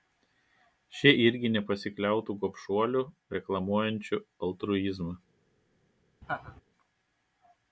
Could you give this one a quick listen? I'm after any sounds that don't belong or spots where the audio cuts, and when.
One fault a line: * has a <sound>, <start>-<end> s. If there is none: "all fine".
* has a laugh, 6.2-6.6 s